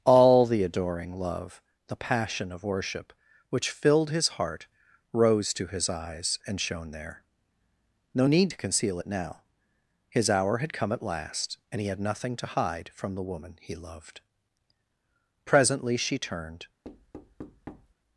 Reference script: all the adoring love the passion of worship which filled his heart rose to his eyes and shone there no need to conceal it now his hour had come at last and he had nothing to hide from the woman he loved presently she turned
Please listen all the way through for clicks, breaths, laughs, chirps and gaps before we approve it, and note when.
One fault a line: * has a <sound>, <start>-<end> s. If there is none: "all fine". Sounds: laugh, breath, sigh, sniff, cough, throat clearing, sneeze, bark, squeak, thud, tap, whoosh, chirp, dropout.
* has a thud, 16.8-17.9 s